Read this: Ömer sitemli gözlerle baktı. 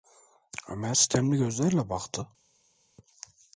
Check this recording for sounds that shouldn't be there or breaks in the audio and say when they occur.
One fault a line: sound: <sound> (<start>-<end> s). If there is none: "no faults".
no faults